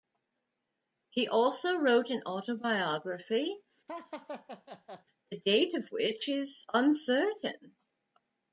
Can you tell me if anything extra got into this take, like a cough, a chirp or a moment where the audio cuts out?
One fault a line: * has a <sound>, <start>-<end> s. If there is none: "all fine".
* has a laugh, 3.9-5.0 s